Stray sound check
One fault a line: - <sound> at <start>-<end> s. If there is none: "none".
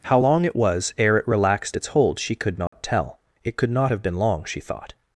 - dropout at 2.7-2.7 s